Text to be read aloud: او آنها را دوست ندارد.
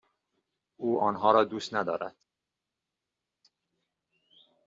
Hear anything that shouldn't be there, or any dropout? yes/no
no